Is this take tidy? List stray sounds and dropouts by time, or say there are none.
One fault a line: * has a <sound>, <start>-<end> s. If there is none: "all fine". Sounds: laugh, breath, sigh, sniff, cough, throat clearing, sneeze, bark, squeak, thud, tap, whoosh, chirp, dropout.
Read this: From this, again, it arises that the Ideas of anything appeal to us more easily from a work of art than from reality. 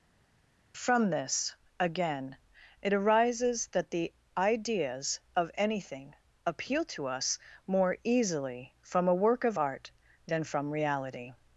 all fine